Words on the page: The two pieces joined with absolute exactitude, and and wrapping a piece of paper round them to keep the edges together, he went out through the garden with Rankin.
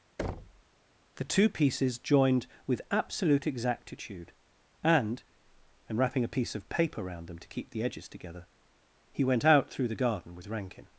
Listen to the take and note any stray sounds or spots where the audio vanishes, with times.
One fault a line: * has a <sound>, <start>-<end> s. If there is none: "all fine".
* has a thud, 0.2-0.6 s